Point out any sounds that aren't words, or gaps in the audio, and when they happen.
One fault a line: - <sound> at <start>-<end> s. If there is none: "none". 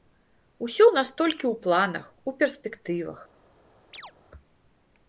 - chirp at 3.9-4.1 s